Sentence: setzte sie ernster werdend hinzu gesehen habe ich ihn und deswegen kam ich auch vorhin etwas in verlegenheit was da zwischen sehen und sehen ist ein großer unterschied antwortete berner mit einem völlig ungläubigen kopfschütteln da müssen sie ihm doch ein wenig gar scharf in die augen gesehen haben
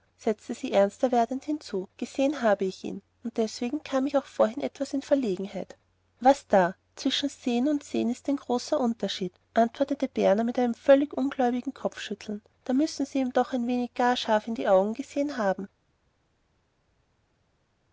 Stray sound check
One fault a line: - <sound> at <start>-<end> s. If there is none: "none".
none